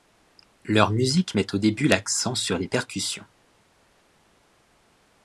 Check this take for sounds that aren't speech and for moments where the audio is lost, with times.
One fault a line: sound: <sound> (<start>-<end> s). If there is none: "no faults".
no faults